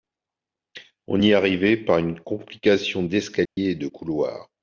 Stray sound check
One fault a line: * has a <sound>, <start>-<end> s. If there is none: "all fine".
* has a dropout, 3.5-3.6 s